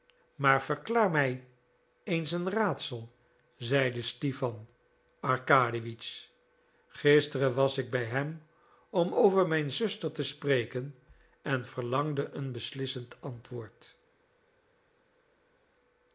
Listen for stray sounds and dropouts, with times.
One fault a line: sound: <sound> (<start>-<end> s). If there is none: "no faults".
no faults